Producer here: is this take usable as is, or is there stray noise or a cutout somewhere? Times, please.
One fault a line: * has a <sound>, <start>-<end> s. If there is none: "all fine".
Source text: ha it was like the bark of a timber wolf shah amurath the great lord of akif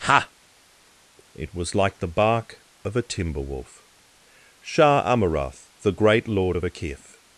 all fine